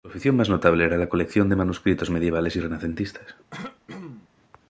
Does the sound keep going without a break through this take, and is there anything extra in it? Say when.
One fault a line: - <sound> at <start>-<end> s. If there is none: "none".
- throat clearing at 3.5-4.3 s